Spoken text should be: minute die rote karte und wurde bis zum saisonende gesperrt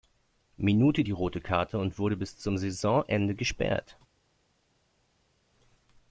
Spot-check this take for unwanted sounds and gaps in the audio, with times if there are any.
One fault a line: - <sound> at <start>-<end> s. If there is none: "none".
none